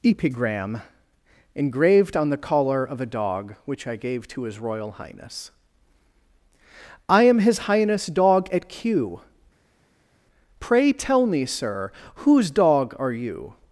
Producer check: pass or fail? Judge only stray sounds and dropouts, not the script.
pass